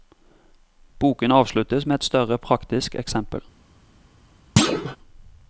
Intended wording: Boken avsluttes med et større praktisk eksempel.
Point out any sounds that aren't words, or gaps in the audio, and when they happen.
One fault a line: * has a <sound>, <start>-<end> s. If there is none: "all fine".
* has a thud, 4.6-5.0 s